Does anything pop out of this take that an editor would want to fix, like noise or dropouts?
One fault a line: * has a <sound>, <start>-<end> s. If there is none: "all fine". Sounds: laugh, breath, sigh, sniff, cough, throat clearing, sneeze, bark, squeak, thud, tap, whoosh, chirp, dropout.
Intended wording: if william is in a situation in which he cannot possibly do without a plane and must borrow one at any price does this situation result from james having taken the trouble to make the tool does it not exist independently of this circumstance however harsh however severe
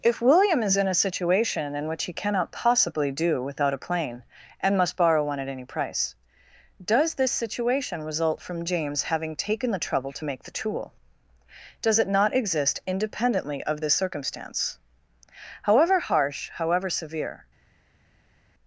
all fine